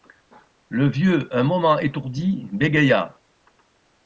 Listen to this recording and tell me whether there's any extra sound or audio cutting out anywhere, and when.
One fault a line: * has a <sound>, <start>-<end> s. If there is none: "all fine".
all fine